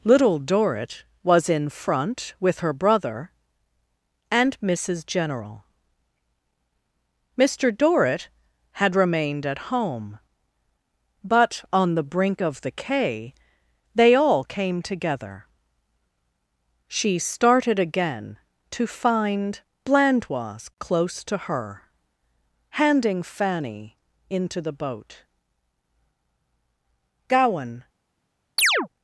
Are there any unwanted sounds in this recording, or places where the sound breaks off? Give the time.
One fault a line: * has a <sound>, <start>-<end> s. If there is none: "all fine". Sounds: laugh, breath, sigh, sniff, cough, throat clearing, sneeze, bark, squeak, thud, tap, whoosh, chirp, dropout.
* has a chirp, 28.6-28.9 s